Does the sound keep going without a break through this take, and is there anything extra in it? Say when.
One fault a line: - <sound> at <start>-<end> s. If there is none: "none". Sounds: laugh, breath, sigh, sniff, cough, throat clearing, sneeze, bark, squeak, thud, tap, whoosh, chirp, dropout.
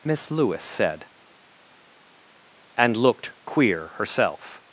none